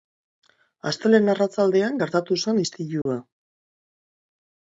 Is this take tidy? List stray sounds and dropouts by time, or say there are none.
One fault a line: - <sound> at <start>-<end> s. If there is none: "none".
- dropout at 3.0-3.1 s